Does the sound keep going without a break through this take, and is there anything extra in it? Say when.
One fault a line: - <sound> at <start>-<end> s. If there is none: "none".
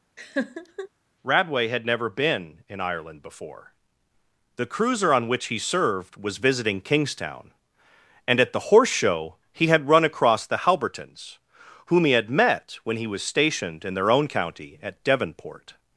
- laugh at 0.2-0.9 s